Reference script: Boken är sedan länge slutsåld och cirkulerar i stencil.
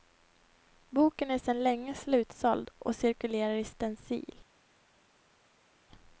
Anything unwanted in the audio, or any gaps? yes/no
no